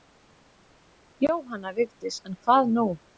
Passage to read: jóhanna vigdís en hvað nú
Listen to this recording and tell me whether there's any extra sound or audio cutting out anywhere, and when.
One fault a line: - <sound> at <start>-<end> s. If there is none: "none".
none